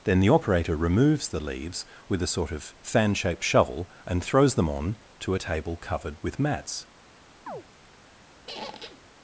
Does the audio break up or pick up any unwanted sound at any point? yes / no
yes